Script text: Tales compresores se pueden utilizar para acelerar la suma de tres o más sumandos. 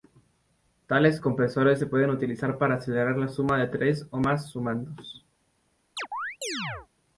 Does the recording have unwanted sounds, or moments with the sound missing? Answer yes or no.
yes